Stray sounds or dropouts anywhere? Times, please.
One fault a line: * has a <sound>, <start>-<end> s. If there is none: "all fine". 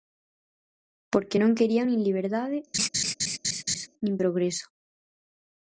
* has a laugh, 2.7-3.9 s